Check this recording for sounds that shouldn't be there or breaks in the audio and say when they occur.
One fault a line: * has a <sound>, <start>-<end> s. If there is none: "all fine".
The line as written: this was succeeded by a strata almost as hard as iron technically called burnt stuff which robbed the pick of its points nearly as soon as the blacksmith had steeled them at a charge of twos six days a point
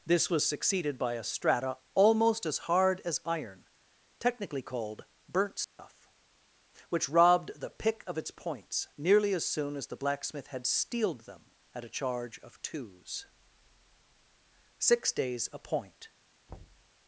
* has a dropout, 5.6-5.8 s
* has a thud, 16.5-16.9 s